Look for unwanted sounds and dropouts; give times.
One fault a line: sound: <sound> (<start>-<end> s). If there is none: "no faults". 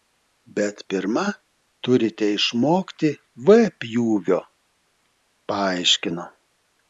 no faults